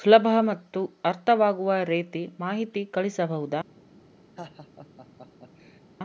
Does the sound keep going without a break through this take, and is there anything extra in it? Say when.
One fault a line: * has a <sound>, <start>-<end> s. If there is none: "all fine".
* has a laugh, 4.4-5.8 s